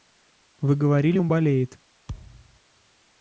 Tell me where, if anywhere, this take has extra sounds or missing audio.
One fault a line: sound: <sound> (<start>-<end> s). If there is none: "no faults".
sound: thud (2.1-2.6 s)